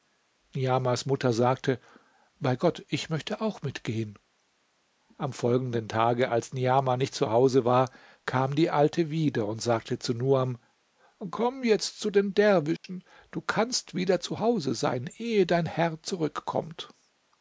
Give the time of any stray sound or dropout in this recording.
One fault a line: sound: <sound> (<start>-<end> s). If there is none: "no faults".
sound: dropout (12.8-12.8 s)